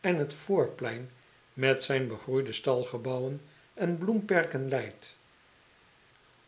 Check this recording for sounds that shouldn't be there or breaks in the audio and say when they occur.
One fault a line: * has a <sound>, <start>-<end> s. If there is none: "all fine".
all fine